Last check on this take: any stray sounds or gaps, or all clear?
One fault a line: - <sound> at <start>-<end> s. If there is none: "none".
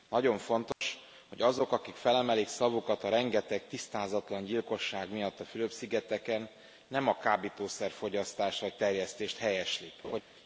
- dropout at 0.7-0.8 s
- laugh at 10.0-10.2 s